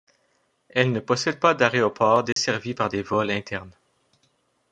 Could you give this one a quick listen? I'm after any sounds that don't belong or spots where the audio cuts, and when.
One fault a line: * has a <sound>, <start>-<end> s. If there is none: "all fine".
* has a dropout, 2.3-2.4 s